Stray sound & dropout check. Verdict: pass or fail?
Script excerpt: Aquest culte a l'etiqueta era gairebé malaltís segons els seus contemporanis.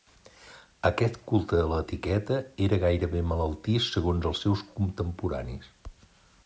pass